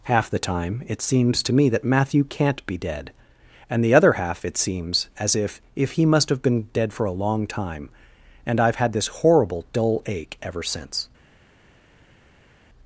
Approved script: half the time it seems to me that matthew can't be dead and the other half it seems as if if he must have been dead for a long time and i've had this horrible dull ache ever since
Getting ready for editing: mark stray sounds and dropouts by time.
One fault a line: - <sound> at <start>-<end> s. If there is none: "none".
none